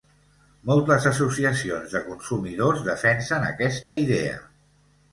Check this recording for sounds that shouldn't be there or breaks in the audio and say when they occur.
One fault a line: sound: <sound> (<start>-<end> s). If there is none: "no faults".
sound: dropout (3.8-4.0 s)